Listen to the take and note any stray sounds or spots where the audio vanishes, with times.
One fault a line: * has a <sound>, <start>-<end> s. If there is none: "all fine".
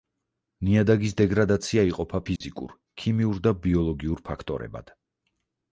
* has a dropout, 2.4-2.4 s